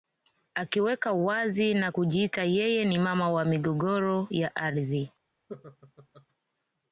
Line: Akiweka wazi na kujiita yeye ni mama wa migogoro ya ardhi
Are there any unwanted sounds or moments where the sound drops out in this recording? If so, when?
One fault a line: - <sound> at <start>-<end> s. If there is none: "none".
- laugh at 5.5-6.3 s